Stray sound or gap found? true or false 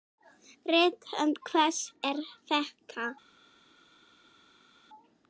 false